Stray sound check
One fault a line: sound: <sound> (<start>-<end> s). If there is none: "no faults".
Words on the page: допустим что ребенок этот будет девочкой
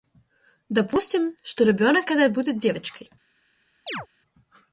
sound: chirp (3.9-4.1 s)